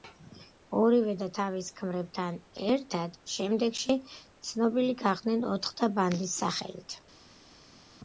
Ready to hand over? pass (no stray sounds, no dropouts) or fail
pass